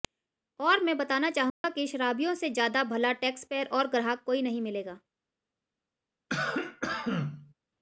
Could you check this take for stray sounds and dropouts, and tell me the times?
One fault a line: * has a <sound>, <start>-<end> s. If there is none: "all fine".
* has a dropout, 1.5-1.6 s
* has a cough, 6.3-7.5 s